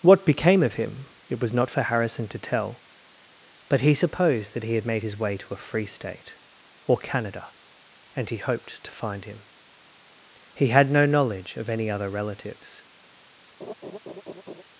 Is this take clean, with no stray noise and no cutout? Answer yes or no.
no